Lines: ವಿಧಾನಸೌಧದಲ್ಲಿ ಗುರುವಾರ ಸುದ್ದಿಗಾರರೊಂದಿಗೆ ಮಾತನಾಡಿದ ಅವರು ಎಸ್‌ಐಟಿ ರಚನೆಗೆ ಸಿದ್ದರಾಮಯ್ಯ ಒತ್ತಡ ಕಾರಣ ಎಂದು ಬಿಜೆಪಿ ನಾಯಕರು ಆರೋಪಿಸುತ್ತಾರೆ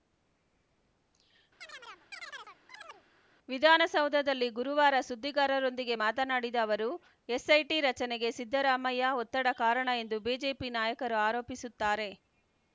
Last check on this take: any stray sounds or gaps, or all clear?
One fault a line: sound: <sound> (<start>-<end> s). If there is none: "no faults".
sound: chirp (1.6-3.1 s)